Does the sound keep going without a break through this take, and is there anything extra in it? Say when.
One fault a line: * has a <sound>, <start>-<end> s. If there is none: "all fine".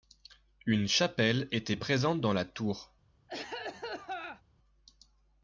* has a cough, 3.3-4.4 s